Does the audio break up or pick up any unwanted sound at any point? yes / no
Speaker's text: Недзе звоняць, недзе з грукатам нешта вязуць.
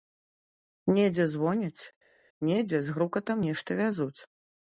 no